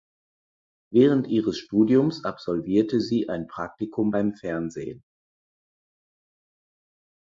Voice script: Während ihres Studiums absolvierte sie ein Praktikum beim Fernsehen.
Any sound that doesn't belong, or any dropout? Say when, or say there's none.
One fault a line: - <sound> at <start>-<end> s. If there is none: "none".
none